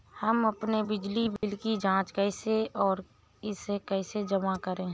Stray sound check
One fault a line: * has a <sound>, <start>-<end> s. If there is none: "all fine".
* has a dropout, 1.4-1.4 s